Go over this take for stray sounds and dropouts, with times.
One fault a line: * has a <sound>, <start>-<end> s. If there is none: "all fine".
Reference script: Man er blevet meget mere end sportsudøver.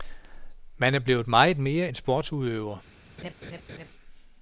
* has a laugh, 3.2-3.9 s